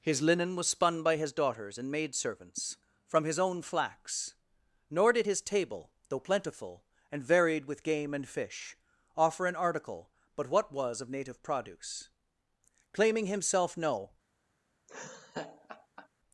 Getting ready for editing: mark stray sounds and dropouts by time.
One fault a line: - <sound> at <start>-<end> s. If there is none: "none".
- laugh at 14.9-16.1 s